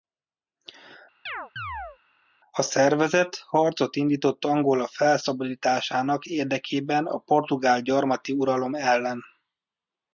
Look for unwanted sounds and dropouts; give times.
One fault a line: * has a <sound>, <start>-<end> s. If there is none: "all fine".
* has a chirp, 1.3-2.0 s